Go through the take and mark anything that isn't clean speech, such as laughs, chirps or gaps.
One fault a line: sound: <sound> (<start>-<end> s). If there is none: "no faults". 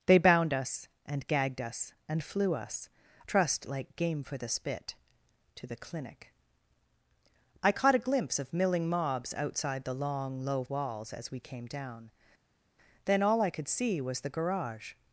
no faults